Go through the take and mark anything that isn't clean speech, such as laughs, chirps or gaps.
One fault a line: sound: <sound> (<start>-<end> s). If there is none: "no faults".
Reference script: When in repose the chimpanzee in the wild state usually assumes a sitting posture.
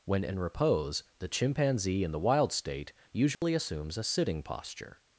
sound: dropout (3.3-3.4 s)